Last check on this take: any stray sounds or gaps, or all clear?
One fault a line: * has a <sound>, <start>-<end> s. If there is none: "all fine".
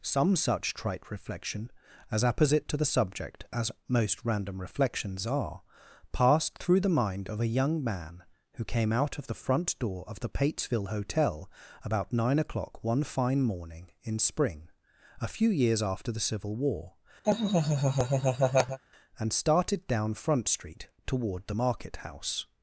* has a laugh, 17.2-18.8 s